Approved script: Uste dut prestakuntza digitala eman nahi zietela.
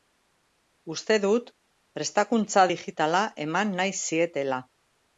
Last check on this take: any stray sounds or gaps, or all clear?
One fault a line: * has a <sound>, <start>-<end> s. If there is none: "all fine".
all fine